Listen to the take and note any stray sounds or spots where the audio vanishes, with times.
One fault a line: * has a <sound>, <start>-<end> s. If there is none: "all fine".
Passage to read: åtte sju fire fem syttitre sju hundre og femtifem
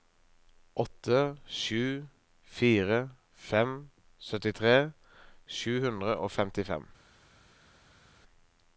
all fine